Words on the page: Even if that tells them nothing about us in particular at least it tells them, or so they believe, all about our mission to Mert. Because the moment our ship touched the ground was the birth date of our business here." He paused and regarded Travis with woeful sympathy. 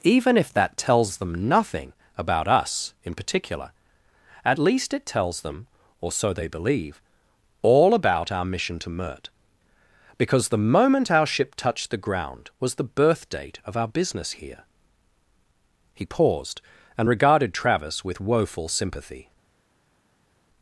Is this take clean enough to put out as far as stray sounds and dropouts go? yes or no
yes